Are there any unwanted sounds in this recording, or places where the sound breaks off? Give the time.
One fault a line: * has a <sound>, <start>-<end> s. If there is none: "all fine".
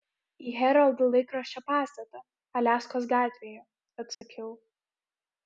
* has a dropout, 4.1-4.2 s